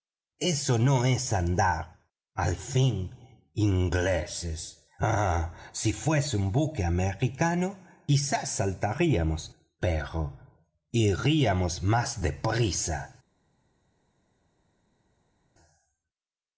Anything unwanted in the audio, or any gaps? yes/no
no